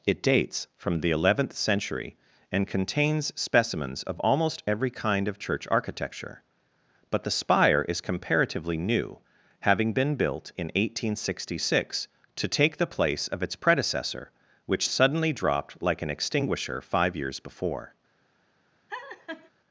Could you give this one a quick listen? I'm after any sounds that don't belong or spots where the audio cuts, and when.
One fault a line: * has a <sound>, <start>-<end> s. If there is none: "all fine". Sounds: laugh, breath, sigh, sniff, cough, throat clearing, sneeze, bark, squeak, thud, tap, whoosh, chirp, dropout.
* has a laugh, 18.9-19.5 s